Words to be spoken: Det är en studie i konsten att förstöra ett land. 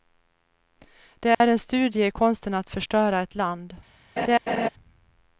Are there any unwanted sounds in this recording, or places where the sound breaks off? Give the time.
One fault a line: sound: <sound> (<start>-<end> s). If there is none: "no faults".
sound: dropout (1.3-1.4 s)
sound: laugh (4.2-4.7 s)